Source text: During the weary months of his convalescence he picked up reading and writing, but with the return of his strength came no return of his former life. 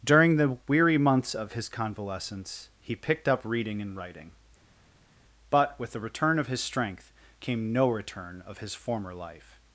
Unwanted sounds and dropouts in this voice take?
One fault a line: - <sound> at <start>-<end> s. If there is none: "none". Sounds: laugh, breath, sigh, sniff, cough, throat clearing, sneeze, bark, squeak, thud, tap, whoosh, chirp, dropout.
none